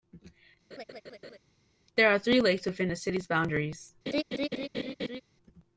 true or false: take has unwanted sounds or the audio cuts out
true